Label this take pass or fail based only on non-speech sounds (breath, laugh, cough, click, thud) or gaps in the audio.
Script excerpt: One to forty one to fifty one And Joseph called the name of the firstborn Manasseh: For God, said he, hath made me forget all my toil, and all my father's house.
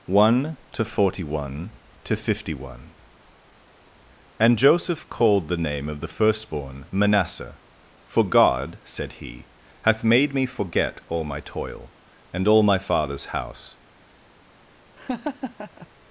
fail